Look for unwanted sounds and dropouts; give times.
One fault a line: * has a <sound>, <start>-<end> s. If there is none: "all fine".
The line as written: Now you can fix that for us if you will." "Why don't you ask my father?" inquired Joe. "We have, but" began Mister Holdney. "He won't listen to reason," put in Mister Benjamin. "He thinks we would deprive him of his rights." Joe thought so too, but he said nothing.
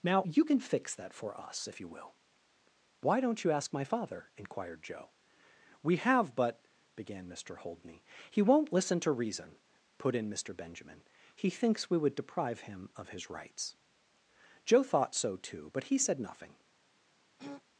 * has a throat clearing, 17.4-17.6 s